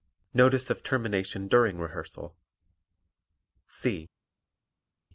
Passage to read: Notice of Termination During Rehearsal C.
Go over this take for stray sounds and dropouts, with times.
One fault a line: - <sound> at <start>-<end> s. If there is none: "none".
none